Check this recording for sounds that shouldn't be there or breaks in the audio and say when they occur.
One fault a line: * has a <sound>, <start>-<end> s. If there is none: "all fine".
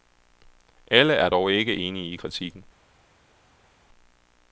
all fine